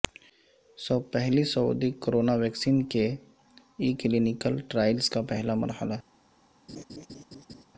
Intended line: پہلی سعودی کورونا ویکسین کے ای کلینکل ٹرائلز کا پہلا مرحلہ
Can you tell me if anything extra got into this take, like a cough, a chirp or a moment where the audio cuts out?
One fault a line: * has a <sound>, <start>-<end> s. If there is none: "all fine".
* has a laugh, 6.7-7.6 s